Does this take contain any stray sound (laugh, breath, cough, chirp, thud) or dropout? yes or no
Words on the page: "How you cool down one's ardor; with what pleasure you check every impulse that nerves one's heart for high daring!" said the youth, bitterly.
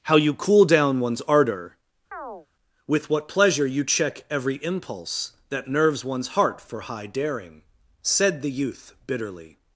yes